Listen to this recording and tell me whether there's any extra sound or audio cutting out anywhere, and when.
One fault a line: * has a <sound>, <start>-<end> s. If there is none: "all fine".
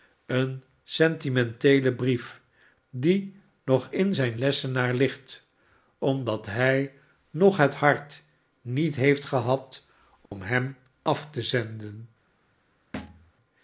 * has a dropout, 10.3-10.3 s
* has a thud, 12.9-13.3 s